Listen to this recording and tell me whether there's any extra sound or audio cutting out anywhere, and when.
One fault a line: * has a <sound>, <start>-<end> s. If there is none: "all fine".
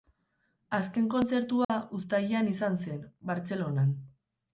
* has a dropout, 1.6-1.7 s